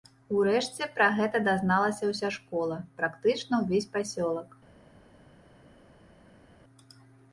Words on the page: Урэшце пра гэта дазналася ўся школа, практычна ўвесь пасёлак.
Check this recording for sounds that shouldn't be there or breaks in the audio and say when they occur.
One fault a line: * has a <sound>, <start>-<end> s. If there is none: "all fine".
all fine